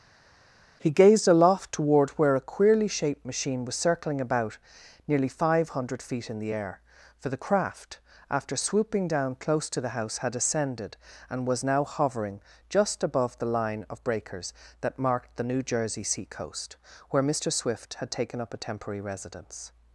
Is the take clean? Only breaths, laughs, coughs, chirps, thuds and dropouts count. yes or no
yes